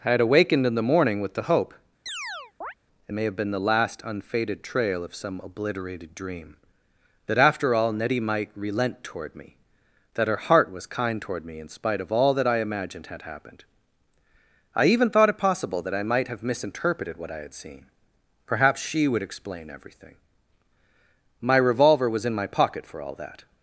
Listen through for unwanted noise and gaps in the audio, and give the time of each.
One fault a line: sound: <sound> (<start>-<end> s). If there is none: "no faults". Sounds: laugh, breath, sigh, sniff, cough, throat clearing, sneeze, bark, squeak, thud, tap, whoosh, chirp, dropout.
sound: chirp (2.1-2.7 s)